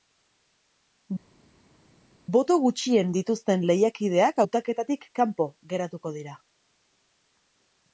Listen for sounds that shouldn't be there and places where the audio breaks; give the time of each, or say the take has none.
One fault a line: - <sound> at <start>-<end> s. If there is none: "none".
none